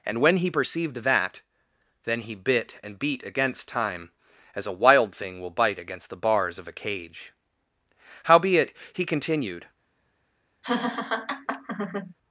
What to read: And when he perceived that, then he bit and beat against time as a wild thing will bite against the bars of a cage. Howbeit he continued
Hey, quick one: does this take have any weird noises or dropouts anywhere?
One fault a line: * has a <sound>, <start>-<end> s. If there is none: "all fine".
* has a laugh, 10.6-12.1 s